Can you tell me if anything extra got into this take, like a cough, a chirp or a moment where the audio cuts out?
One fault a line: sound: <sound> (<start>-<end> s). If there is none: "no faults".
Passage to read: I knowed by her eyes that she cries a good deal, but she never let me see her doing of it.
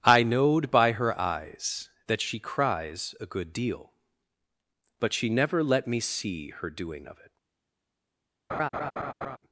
sound: laugh (8.5-9.4 s)